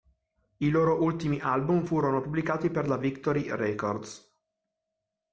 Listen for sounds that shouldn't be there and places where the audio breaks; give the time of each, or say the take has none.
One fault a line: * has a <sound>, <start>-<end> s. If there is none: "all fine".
all fine